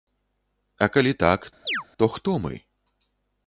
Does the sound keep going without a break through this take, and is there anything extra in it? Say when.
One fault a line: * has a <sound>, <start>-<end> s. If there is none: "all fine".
* has a chirp, 1.7-1.8 s